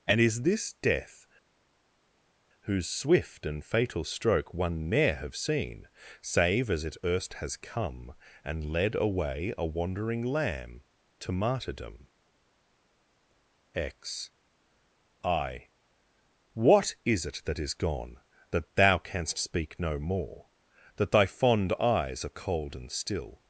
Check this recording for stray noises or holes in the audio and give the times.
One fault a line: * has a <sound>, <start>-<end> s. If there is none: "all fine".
all fine